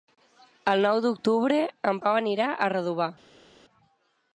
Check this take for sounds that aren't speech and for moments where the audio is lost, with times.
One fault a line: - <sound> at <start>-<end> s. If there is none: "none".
none